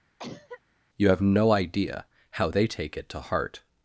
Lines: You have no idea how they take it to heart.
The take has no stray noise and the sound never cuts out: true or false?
false